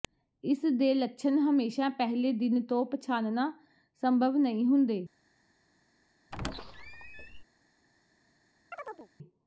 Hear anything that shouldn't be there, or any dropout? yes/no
yes